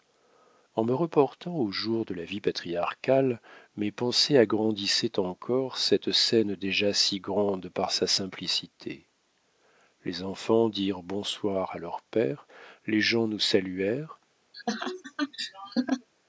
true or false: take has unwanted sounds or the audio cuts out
true